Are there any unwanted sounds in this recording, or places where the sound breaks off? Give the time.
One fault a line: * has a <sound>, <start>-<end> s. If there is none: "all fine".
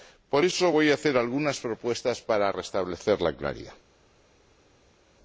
all fine